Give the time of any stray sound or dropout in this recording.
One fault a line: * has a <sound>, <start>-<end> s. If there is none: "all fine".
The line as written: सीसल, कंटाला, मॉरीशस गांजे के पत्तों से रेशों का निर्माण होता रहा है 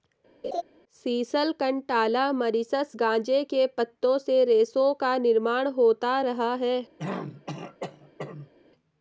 * has a laugh, 0.4-0.6 s
* has a throat clearing, 7.0-8.5 s